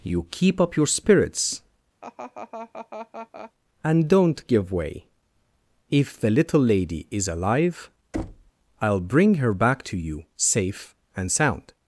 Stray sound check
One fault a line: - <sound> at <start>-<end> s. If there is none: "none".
- laugh at 2.0-3.5 s
- thud at 8.1-8.5 s